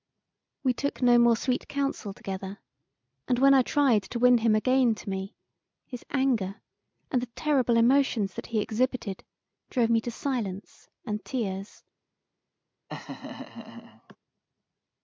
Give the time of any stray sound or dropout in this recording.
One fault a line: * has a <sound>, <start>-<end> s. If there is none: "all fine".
* has a laugh, 12.9-14.2 s